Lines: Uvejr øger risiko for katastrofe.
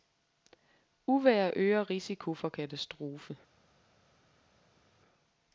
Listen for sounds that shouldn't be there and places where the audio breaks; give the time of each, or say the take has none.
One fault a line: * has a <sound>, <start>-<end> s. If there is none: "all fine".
all fine